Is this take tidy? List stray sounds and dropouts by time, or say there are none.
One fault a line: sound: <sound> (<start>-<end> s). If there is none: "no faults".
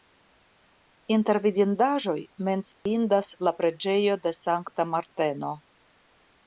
sound: dropout (2.7-2.9 s)